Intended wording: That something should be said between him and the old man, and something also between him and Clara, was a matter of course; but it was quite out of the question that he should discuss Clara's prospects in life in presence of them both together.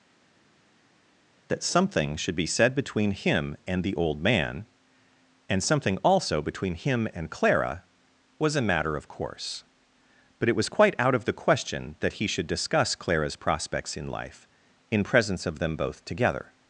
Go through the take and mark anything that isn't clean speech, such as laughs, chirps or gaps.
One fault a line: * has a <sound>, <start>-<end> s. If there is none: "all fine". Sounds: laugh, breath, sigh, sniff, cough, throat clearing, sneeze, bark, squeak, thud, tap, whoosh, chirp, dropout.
all fine